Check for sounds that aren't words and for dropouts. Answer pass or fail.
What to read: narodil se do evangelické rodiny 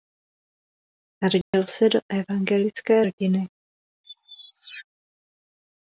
fail